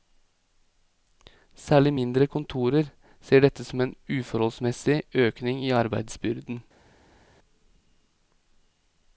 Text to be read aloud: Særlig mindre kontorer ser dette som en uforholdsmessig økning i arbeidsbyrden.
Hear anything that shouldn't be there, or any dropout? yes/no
no